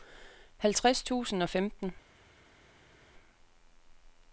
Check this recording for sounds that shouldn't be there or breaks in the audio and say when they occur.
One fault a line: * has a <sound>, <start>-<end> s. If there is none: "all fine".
all fine